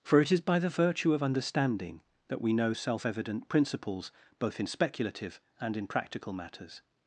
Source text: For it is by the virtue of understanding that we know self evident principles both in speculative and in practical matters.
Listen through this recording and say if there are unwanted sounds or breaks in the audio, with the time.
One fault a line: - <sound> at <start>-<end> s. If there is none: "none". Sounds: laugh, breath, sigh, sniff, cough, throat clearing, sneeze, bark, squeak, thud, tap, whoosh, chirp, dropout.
none